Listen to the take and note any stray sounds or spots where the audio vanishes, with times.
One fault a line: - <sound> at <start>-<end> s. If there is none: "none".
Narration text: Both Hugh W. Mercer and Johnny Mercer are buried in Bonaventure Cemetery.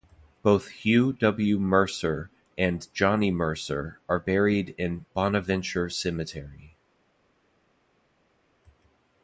none